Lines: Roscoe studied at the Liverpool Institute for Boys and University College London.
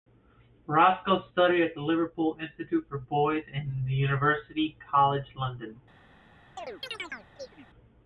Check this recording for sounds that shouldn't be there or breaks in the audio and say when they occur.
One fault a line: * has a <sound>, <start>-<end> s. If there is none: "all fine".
* has a chirp, 6.6-7.7 s